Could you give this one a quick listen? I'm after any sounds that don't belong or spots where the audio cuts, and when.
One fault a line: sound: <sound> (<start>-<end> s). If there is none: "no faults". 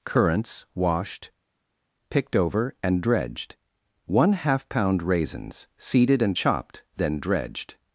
no faults